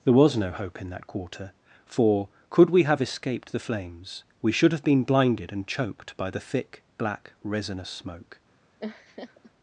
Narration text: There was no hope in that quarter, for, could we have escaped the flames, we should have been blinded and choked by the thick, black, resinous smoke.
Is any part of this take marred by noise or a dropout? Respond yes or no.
yes